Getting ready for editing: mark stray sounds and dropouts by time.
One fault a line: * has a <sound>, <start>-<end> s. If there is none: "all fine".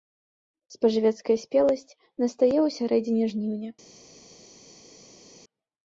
all fine